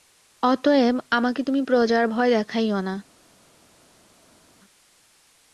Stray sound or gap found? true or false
false